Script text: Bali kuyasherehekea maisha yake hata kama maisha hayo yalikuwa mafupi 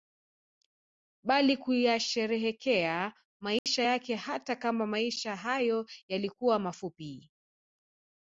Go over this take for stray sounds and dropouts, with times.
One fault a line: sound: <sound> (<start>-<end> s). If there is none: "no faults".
sound: dropout (3.6-3.7 s)